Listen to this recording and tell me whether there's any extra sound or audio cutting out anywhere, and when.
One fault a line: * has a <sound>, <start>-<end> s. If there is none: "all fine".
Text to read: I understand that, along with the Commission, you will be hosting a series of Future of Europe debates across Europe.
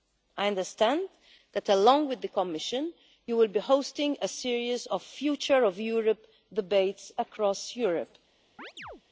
* has a chirp, 8.6-9.0 s